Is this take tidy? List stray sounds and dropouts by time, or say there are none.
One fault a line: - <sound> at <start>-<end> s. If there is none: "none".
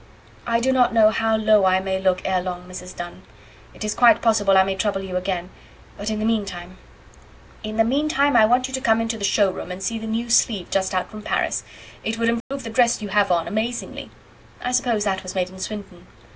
- dropout at 12.4-12.5 s